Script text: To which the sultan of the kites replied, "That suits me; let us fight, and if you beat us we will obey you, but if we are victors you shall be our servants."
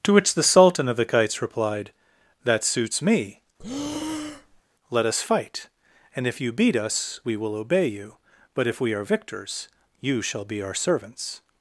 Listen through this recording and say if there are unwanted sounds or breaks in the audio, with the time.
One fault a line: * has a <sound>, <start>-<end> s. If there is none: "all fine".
* has a breath, 3.6-4.6 s